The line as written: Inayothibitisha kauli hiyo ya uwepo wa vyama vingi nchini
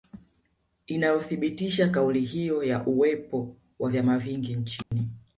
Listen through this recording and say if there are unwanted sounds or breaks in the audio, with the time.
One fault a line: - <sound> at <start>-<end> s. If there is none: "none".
- dropout at 4.8-4.9 s